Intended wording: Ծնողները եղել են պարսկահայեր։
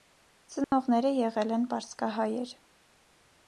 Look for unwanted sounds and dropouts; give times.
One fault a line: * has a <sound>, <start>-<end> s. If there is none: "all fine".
* has a dropout, 0.6-0.7 s